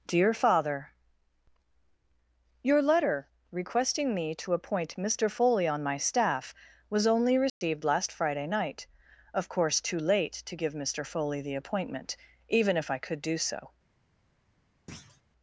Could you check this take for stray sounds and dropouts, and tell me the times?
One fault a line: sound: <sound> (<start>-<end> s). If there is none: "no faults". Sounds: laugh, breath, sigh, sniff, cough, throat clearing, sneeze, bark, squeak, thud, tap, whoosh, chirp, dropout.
sound: dropout (7.5-7.6 s)
sound: thud (14.9-15.2 s)